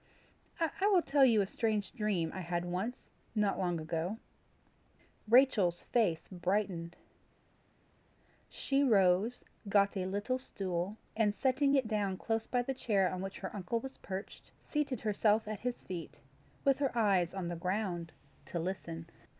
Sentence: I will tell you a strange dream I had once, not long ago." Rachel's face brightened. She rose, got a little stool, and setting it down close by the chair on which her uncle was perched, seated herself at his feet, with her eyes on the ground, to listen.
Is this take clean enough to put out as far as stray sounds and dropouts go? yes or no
yes